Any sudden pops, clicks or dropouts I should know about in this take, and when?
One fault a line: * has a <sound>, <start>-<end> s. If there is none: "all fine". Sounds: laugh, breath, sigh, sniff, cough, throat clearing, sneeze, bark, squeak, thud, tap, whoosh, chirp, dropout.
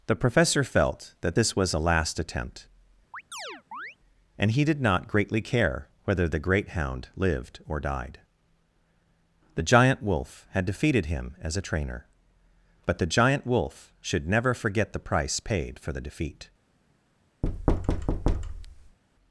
* has a chirp, 3.1-4.0 s
* has a thud, 17.4-19.0 s